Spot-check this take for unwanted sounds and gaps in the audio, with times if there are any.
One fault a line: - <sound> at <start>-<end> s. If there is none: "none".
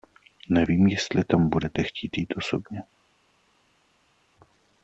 none